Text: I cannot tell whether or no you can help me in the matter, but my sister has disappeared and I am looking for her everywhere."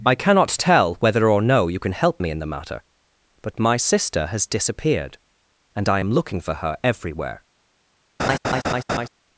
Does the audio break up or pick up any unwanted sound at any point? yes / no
yes